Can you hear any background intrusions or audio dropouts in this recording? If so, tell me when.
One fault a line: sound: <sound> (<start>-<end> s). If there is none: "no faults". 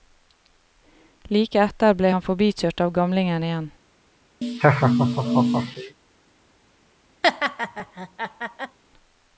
sound: laugh (4.4-6.0 s)
sound: laugh (7.2-8.8 s)